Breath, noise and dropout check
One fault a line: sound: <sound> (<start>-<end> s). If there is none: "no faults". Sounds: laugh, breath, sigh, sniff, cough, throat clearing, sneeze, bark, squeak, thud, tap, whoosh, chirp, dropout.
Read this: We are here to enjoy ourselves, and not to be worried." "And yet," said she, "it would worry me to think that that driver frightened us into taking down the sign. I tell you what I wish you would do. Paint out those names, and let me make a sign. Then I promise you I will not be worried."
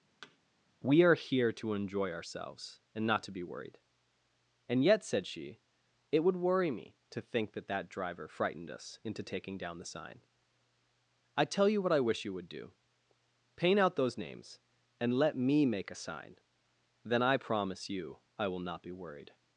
sound: thud (0.2-0.4 s)